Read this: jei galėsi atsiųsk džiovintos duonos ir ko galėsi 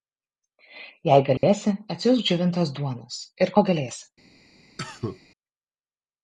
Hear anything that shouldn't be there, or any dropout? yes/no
yes